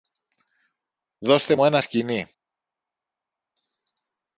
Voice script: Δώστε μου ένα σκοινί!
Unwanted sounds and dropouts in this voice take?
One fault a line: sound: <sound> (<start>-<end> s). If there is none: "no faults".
no faults